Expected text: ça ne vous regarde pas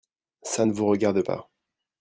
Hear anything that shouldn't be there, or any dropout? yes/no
no